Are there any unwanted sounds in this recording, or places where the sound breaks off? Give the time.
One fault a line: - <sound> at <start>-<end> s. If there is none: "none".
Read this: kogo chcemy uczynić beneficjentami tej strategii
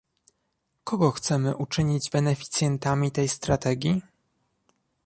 none